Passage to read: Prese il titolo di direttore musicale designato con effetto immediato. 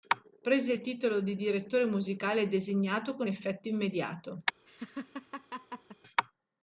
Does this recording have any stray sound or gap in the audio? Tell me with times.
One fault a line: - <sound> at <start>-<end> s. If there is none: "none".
- laugh at 4.7-6.0 s